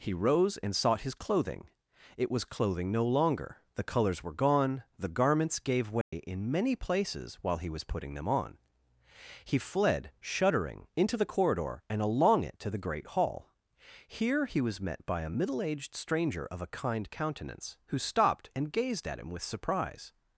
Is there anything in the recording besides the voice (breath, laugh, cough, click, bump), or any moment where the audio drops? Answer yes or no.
yes